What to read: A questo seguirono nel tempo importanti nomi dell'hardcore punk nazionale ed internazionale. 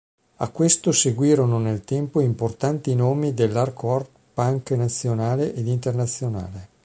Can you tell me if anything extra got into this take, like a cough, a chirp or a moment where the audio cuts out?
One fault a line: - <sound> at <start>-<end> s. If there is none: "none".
none